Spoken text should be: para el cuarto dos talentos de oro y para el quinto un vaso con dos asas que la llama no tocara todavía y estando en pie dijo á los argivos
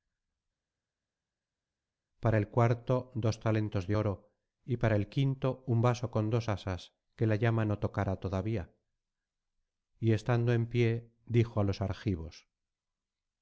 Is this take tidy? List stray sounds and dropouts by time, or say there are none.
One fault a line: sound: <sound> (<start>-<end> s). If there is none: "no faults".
no faults